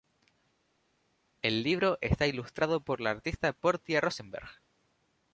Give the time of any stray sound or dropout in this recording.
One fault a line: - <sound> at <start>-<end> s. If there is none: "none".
none